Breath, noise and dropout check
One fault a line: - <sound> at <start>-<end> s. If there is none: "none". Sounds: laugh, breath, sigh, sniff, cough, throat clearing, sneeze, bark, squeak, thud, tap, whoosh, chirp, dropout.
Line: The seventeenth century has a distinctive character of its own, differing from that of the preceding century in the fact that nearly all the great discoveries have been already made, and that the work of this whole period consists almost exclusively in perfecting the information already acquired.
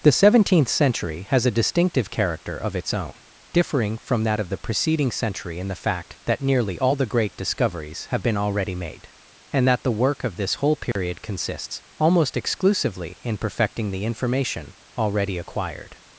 - dropout at 10.9-11.0 s